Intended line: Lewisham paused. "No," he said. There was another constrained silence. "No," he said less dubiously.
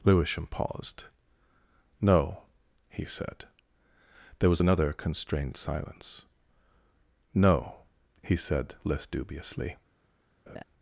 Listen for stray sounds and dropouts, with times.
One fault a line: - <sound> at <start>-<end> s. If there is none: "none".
- laugh at 10.5-10.6 s